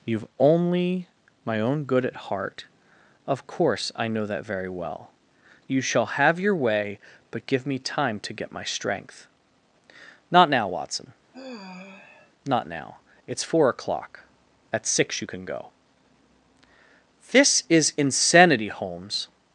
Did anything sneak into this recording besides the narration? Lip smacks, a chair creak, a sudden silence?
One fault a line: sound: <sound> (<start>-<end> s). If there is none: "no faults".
sound: sigh (11.3-12.3 s)